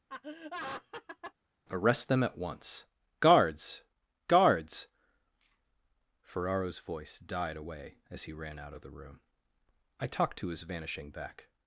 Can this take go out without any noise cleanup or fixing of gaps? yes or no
no